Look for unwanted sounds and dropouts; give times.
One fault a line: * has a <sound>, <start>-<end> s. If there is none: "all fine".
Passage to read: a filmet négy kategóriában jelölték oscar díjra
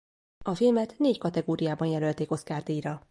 all fine